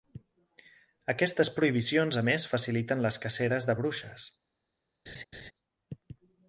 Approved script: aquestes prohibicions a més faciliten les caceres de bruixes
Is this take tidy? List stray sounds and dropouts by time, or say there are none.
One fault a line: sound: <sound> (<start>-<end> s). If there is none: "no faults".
sound: laugh (5.1-5.5 s)